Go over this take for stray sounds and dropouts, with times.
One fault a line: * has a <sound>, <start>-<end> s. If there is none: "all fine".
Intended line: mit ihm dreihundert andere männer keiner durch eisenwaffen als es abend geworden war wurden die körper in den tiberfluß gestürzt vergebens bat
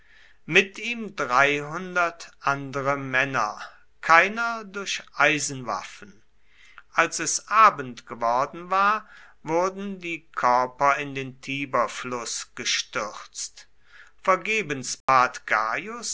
* has a dropout, 15.0-15.1 s